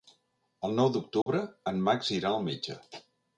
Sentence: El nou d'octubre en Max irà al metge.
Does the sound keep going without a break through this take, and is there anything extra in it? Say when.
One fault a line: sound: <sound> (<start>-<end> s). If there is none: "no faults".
sound: dropout (1.2-1.3 s)